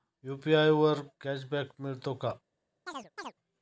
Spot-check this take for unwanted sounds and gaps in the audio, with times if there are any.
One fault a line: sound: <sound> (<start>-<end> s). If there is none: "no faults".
sound: chirp (2.9-3.3 s)